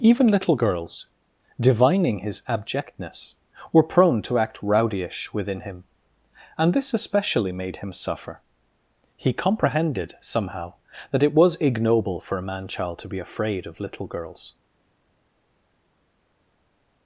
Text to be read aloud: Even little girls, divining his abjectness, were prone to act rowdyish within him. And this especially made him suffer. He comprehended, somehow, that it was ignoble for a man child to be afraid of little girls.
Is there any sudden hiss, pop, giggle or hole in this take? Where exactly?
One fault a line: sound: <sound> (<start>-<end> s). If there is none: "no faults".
no faults